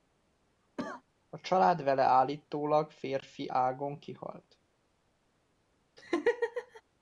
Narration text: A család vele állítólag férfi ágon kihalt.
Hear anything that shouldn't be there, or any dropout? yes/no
yes